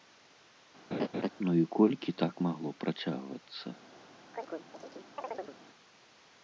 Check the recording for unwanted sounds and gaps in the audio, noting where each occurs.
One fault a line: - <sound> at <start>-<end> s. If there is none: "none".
- laugh at 0.9-1.3 s
- chirp at 4.3-5.6 s